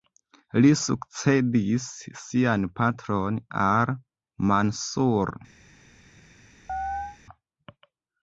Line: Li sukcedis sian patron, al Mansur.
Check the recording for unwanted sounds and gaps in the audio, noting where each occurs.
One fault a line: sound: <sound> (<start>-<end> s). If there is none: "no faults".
sound: chirp (6.7-7.2 s)